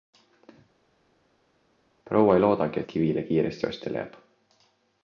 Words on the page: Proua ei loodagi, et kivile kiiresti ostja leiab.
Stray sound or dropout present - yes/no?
no